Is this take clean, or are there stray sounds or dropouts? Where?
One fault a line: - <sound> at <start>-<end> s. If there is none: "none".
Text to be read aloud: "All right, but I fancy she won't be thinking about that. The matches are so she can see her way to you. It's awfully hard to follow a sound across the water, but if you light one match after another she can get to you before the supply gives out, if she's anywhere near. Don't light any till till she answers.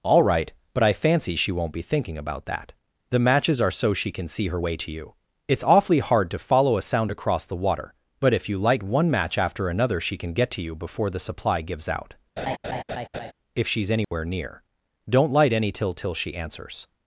- laugh at 12.4-13.3 s
- dropout at 14.0-14.1 s